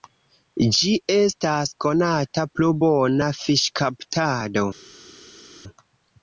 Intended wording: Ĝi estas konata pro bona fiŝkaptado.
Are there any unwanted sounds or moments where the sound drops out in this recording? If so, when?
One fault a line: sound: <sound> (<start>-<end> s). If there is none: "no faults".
no faults